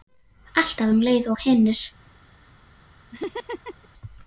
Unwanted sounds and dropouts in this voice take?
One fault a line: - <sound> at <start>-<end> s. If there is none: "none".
- laugh at 3.1-3.9 s